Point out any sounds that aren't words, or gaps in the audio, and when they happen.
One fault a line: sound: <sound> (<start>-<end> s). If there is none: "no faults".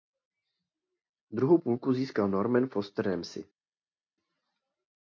no faults